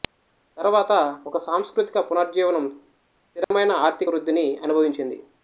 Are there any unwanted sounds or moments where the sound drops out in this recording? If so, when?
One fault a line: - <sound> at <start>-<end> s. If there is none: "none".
- dropout at 3.4-3.5 s